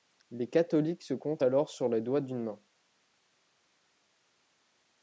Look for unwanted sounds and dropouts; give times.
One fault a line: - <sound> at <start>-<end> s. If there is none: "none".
none